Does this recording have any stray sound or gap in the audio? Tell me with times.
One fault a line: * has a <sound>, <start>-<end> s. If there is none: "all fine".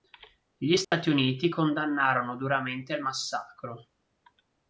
* has a dropout, 0.8-0.9 s